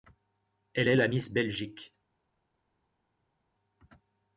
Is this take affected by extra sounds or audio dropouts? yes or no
no